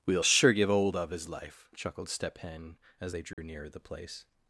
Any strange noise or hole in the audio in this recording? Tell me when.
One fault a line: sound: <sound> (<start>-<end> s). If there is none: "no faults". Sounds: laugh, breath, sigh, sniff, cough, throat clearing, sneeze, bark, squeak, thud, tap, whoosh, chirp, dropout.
sound: dropout (3.3-3.4 s)